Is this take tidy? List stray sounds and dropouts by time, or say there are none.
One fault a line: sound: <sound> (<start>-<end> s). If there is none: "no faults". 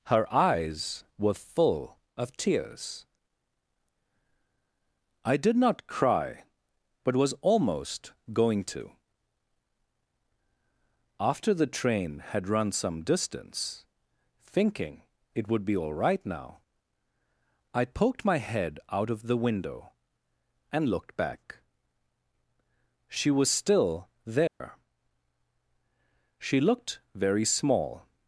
sound: dropout (24.5-24.6 s)